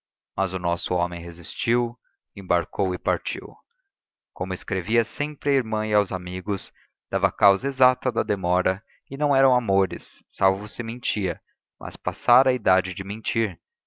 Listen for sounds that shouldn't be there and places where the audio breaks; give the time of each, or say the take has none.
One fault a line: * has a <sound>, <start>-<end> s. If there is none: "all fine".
all fine